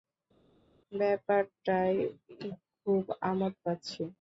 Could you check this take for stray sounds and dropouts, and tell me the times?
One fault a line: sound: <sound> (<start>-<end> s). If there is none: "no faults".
no faults